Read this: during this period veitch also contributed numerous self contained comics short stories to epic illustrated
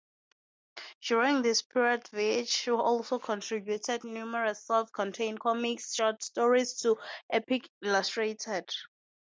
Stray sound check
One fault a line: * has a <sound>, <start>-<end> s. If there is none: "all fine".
all fine